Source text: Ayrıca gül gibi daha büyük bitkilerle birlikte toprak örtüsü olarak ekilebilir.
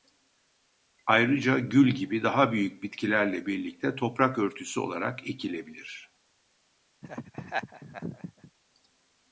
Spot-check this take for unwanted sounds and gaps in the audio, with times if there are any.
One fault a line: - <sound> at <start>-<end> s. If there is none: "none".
- laugh at 7.0-8.5 s